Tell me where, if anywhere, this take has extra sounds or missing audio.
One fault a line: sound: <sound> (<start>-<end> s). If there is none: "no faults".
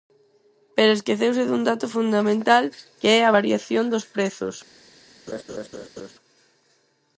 sound: laugh (5.3-6.1 s)